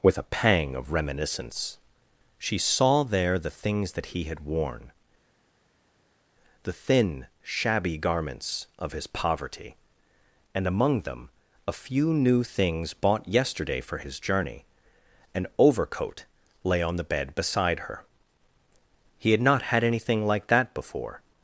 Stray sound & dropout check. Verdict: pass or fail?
pass